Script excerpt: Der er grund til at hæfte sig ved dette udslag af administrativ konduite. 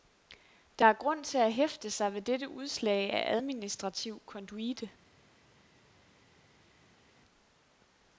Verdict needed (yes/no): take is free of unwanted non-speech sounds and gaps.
yes